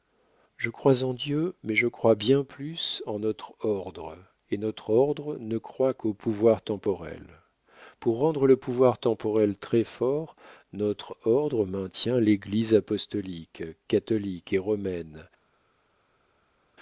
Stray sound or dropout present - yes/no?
no